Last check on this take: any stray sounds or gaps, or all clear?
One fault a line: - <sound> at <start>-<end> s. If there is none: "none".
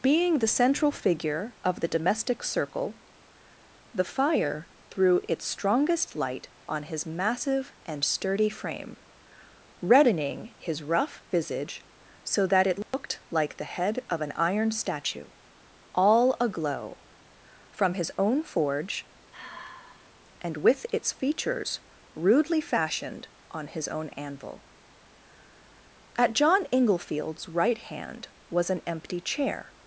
- dropout at 12.8-12.9 s
- sigh at 19.3-20.1 s